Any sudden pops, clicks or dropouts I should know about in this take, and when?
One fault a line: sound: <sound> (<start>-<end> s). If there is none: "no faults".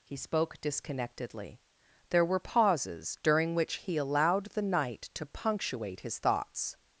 no faults